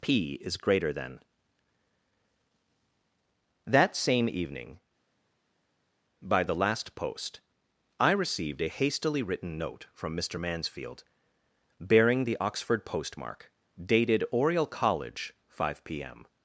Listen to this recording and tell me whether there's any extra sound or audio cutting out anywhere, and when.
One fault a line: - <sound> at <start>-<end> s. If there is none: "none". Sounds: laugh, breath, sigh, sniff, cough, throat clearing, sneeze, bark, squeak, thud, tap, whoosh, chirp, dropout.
none